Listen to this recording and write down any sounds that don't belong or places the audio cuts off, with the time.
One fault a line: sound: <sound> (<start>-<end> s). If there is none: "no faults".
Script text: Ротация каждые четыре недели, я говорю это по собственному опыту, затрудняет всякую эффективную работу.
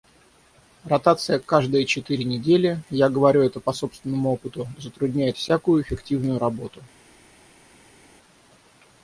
no faults